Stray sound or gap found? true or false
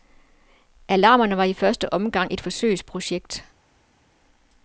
false